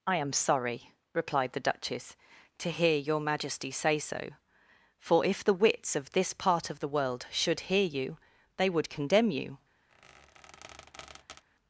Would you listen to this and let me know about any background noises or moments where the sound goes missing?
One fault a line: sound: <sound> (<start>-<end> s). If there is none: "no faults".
sound: squeak (9.9-11.4 s)